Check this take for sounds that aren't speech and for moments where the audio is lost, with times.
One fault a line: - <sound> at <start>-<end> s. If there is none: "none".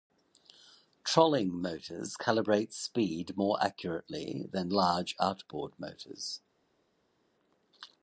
none